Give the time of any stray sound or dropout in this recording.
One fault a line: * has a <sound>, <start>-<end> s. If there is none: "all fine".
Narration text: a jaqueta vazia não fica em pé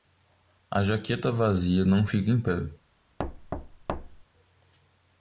* has a thud, 3.2-4.2 s